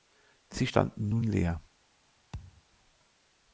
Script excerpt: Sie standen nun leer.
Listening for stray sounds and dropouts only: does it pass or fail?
fail